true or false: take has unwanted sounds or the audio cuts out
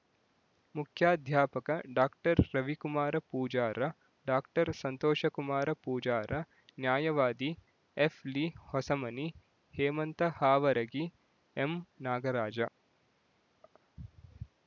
false